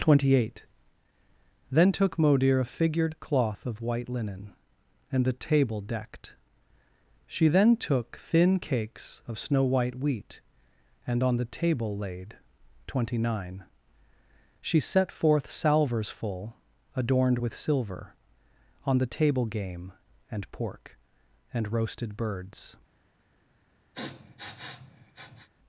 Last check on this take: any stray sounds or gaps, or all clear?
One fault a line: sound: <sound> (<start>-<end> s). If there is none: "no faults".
sound: sniff (23.9-25.5 s)